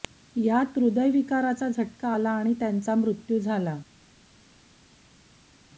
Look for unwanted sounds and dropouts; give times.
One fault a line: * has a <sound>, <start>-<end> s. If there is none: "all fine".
all fine